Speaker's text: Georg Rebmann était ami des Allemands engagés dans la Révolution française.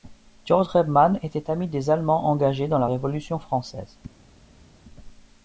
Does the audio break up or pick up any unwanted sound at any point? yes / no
no